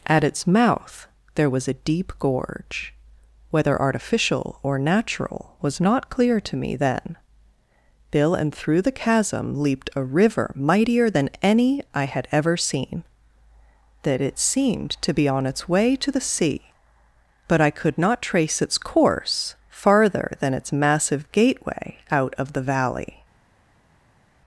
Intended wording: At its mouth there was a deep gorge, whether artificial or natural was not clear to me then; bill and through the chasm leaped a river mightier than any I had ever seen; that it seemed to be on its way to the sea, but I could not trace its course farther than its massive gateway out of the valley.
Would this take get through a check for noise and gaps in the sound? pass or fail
pass